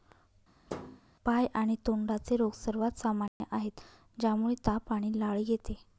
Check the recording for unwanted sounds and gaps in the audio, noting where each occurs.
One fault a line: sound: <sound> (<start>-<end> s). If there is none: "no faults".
sound: thud (0.7-1.0 s)
sound: dropout (3.3-3.4 s)